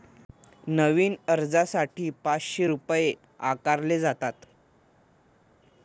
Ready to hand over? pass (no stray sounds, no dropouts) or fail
pass